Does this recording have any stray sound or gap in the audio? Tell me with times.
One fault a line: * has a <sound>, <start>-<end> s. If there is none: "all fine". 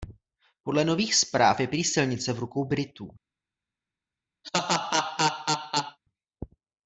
* has a laugh, 4.4-6.0 s